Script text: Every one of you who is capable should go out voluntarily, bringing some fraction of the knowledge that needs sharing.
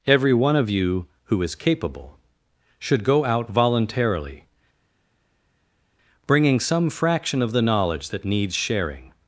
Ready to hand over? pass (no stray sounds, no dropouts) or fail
pass